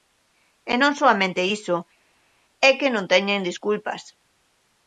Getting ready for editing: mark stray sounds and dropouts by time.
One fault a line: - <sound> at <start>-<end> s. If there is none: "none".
none